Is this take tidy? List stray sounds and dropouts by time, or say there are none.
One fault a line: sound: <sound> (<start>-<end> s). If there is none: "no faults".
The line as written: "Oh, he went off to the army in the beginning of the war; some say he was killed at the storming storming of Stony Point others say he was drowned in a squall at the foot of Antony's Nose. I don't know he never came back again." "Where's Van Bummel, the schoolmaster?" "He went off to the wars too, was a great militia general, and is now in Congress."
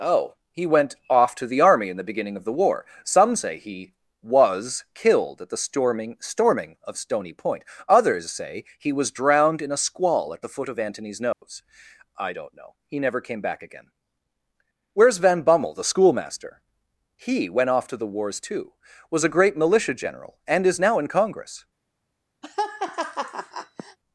sound: dropout (11.3-11.4 s)
sound: laugh (22.4-24.0 s)